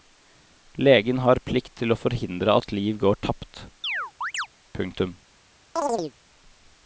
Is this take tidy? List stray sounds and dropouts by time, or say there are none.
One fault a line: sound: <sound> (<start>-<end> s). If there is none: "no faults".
sound: chirp (3.8-4.5 s)
sound: chirp (5.8-6.1 s)